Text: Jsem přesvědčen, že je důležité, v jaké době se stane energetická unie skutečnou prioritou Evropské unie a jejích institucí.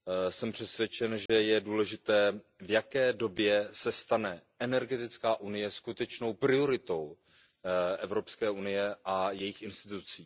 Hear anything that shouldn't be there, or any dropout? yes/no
yes